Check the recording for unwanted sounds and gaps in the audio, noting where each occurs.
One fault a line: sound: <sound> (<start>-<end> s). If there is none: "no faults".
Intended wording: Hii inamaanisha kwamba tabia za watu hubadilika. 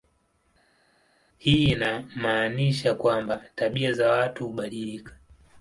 no faults